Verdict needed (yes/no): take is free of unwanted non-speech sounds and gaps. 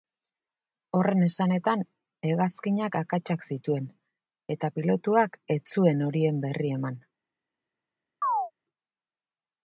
no